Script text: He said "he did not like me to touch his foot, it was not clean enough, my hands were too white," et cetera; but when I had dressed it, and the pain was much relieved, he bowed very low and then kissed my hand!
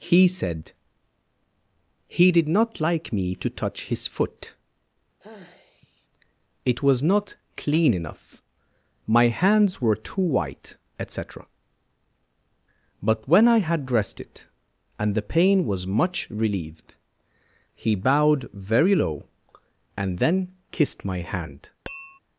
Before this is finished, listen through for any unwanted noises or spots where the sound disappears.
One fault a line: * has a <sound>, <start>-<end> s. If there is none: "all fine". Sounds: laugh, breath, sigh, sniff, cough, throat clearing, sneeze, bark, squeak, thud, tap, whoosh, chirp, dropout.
* has a sigh, 5.2-6.1 s
* has a tap, 21.9-22.2 s